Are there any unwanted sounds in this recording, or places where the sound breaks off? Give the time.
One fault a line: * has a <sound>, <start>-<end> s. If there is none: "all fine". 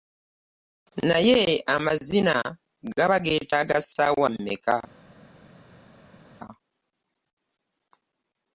all fine